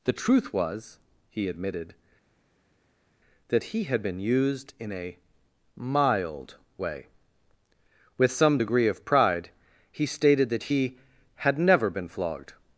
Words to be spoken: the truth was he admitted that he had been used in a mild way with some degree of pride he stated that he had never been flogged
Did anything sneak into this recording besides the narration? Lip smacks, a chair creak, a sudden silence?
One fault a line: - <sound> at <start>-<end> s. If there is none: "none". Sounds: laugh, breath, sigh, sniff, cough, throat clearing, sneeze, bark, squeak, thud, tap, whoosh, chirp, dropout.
none